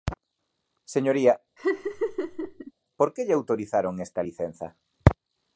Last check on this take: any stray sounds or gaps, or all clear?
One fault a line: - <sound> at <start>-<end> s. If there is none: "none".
- laugh at 1.6-2.7 s